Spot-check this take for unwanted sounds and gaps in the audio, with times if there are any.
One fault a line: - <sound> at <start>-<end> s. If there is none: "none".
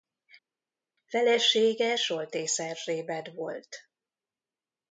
none